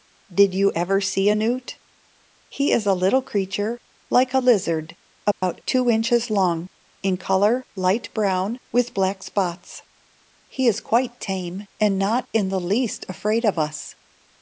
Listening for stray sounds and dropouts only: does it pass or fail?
fail